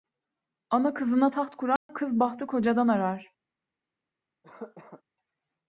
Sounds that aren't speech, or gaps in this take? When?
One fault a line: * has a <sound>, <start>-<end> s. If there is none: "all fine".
* has a dropout, 1.8-1.9 s
* has a cough, 4.4-5.0 s